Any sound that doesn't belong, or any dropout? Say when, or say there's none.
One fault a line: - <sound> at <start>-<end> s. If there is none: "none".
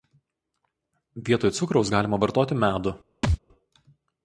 - thud at 3.2-3.4 s